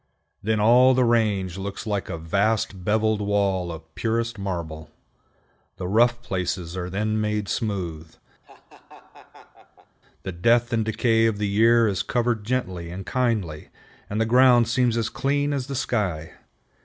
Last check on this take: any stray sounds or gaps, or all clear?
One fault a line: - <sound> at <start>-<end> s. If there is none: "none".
- laugh at 8.4-10.0 s